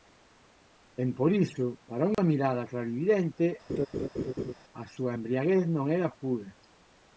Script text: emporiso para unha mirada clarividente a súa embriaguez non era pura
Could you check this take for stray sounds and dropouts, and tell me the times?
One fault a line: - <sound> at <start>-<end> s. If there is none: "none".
- dropout at 2.1-2.2 s
- laugh at 3.7-4.5 s